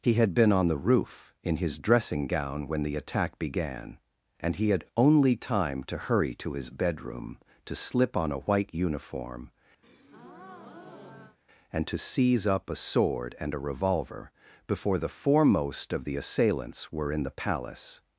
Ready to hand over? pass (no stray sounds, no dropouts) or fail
fail